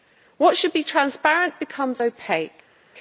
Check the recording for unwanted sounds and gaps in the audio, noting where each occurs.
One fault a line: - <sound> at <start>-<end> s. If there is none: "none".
none